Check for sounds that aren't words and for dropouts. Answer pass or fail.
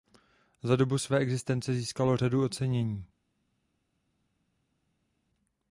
pass